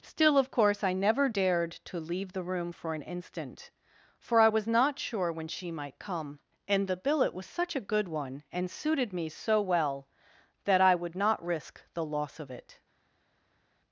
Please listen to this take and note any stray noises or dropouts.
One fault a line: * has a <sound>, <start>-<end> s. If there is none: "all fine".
all fine